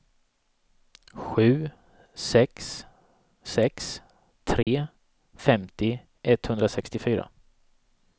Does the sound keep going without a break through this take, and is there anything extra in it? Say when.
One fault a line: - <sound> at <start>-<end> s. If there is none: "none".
- dropout at 4.6-4.7 s